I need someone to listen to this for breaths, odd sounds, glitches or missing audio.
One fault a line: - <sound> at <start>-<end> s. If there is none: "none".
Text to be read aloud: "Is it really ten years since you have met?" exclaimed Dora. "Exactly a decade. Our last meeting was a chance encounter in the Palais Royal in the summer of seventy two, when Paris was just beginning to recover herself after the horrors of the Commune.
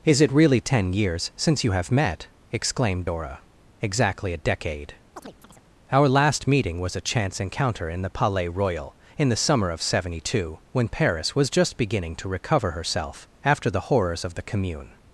- chirp at 5.2-5.6 s